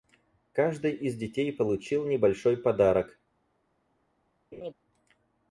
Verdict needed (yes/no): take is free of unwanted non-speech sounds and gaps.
no